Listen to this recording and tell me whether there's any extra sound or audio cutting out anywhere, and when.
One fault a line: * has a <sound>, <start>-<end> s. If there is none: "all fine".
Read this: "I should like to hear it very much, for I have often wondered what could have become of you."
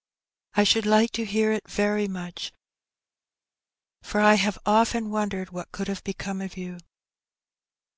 all fine